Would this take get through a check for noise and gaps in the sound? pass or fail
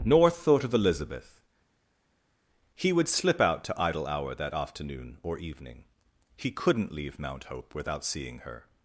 pass